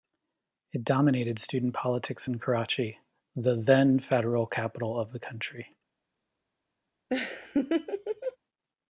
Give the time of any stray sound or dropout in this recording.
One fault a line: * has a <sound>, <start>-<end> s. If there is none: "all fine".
* has a laugh, 7.1-8.4 s